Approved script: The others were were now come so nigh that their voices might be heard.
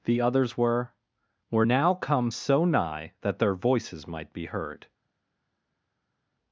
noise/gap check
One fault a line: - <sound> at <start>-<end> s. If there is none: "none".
none